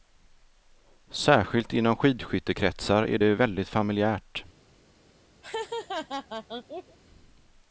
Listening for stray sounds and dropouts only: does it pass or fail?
fail